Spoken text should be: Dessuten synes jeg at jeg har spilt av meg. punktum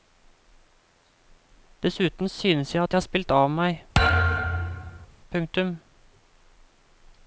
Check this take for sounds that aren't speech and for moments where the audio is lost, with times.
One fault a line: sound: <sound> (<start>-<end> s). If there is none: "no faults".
sound: thud (3.9-5.1 s)